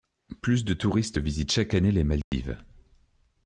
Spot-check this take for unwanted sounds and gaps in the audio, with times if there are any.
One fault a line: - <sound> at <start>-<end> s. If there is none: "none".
- dropout at 2.2-2.3 s